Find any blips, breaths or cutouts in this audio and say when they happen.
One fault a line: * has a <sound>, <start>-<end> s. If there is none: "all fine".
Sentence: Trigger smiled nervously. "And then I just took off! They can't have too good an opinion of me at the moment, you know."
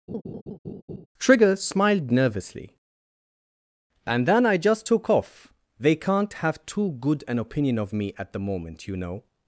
* has a laugh, 0.1-1.1 s